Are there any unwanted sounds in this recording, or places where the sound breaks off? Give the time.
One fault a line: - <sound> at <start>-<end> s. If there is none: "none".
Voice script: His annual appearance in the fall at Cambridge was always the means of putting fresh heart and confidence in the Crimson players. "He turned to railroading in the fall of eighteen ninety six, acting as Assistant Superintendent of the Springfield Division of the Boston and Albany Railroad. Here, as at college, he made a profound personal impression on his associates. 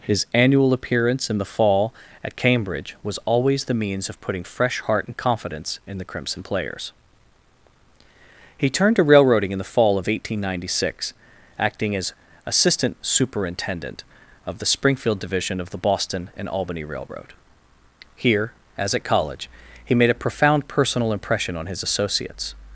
none